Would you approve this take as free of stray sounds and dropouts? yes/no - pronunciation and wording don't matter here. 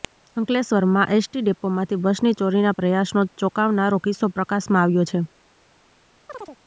no